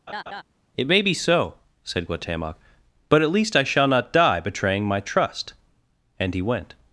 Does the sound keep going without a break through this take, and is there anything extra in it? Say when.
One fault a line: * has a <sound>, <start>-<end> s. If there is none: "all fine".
* has a laugh, 0.1-0.4 s